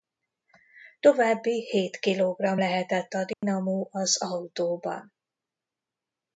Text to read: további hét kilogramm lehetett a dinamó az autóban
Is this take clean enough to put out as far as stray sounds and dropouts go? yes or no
no